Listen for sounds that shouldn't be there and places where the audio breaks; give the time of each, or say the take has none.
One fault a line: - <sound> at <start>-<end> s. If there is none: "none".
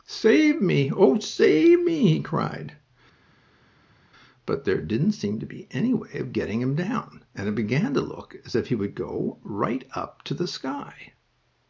none